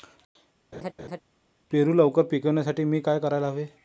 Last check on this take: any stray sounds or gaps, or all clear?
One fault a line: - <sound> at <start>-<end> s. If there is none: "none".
- laugh at 0.7-1.2 s